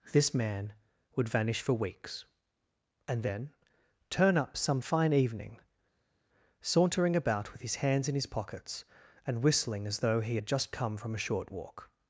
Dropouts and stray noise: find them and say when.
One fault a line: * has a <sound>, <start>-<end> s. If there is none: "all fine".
all fine